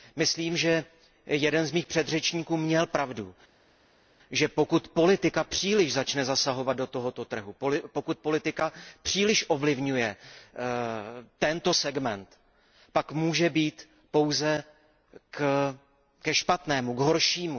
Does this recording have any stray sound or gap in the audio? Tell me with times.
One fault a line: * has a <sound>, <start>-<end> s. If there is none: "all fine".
all fine